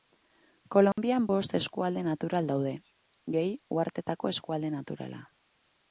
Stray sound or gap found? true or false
true